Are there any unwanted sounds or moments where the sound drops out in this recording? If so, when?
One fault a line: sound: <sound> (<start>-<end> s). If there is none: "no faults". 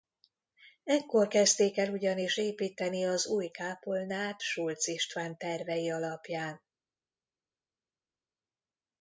no faults